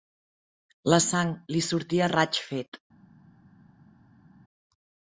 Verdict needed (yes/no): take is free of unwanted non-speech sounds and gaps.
yes